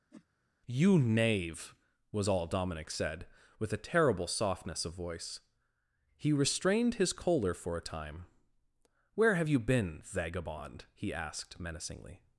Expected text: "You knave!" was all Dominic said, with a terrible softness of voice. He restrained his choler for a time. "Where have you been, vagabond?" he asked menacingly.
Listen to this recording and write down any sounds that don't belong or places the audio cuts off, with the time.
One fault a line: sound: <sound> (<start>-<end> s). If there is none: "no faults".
sound: whoosh (0.1-0.3 s)